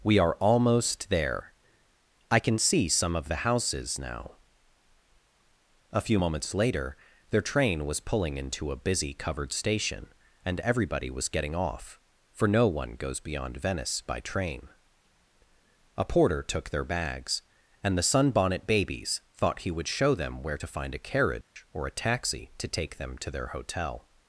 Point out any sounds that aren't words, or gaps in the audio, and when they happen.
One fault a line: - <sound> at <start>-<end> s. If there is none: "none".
- dropout at 21.4-21.6 s